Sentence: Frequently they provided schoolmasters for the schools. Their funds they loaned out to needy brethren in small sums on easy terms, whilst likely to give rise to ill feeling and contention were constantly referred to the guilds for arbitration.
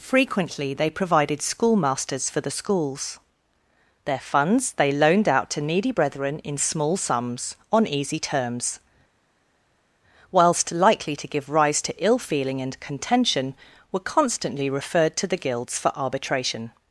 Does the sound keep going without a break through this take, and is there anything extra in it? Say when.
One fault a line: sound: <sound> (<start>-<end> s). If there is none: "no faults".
no faults